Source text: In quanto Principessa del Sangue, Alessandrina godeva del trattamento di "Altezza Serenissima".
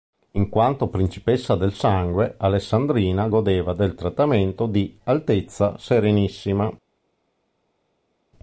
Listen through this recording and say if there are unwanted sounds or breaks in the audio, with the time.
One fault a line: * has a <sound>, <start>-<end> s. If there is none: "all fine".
all fine